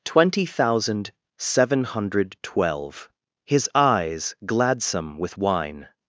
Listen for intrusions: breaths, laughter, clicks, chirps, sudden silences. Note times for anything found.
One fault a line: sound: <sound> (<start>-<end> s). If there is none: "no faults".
no faults